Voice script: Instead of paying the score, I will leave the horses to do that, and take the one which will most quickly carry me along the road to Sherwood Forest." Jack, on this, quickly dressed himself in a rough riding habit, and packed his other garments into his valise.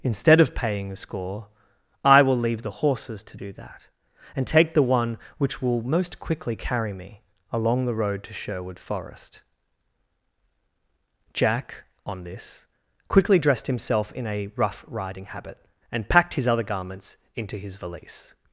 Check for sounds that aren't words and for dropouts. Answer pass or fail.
pass